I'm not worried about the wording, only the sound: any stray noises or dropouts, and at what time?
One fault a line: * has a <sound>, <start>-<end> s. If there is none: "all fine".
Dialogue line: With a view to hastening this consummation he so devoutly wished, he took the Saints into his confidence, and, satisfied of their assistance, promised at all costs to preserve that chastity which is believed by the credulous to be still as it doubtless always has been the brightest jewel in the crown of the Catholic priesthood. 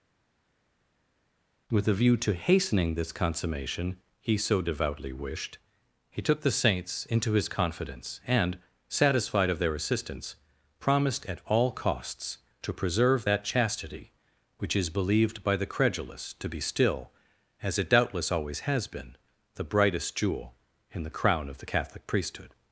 all fine